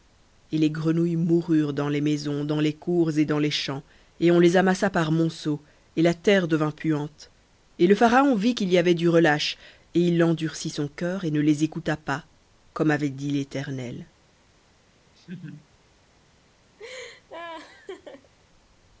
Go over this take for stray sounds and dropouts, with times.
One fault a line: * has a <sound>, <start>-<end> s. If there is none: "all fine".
* has a laugh, 15.1-15.7 s
* has a laugh, 16.8-18.3 s